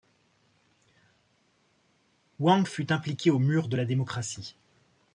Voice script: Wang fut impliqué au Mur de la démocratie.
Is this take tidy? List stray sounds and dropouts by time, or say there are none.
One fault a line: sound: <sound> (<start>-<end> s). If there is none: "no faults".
no faults